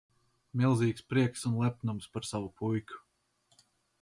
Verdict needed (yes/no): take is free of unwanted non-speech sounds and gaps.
yes